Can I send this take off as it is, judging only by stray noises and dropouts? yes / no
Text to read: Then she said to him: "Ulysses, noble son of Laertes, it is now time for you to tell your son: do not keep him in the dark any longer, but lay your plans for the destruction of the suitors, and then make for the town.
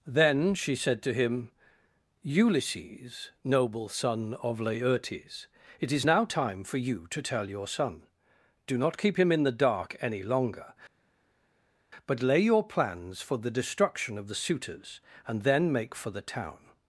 yes